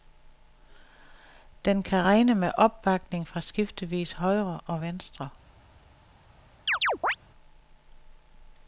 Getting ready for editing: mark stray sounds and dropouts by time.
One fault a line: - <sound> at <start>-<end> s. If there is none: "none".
- chirp at 6.7-7.2 s